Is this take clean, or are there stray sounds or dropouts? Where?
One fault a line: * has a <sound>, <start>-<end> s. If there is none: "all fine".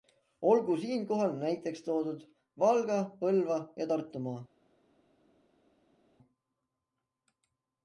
all fine